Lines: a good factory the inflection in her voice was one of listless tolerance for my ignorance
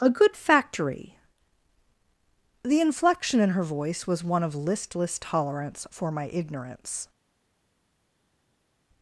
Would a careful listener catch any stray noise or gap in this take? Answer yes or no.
no